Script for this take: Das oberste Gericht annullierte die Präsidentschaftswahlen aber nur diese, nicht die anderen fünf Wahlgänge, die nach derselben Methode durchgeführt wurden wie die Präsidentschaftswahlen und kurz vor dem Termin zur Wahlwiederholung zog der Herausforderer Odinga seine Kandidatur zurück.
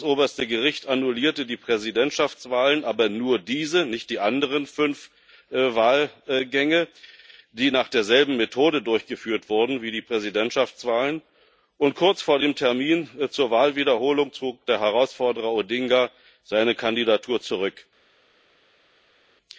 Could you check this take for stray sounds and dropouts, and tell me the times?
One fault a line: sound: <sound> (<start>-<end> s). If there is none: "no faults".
no faults